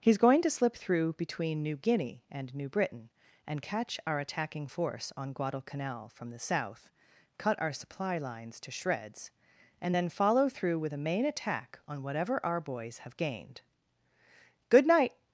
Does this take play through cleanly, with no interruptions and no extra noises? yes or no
yes